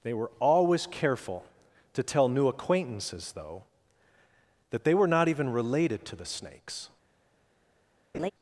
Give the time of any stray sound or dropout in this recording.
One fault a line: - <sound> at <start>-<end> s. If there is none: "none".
- laugh at 8.1-8.3 s